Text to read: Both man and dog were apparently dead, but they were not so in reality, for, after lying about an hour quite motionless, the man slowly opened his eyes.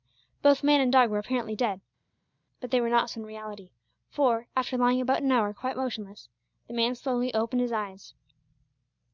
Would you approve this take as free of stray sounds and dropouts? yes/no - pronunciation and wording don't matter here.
yes